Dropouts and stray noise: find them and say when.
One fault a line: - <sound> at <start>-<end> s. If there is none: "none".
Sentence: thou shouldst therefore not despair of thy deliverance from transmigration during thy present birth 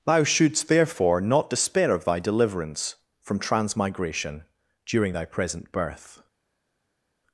none